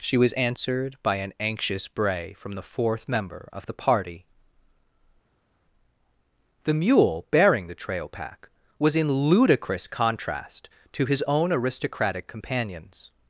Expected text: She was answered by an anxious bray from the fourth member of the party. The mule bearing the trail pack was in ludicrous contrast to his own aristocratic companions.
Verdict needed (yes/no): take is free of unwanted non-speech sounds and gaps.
yes